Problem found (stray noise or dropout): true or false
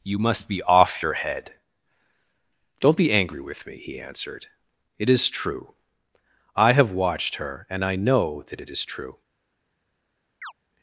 true